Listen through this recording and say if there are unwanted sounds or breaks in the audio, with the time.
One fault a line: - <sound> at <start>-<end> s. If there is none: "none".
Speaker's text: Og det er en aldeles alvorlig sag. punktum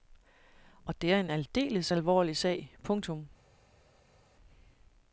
none